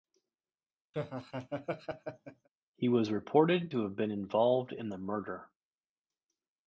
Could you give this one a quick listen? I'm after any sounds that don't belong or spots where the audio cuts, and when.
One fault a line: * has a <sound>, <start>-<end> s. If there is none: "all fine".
* has a laugh, 0.9-2.5 s